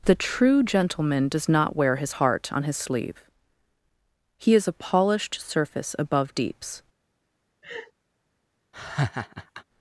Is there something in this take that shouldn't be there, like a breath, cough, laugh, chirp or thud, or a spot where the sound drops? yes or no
yes